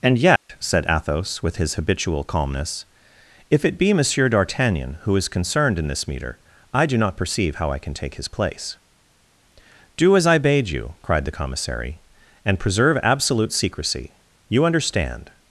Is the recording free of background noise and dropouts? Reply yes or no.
no